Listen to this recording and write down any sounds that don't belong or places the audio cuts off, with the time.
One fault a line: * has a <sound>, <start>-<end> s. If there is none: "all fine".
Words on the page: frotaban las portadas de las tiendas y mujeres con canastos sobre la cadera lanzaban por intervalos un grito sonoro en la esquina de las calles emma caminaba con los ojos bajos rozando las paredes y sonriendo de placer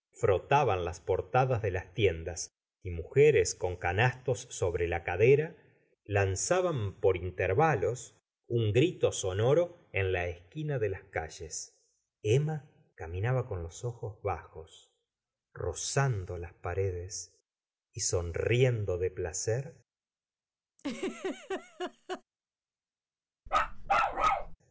* has a laugh, 20.8-22.2 s
* has a bark, 23.5-24.6 s